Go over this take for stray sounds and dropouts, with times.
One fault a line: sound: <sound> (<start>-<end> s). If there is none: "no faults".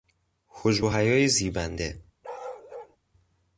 sound: bark (2.2-3.0 s)